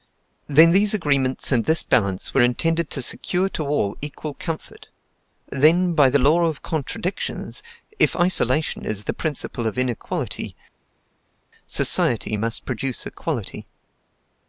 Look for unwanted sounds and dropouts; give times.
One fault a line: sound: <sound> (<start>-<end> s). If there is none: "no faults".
no faults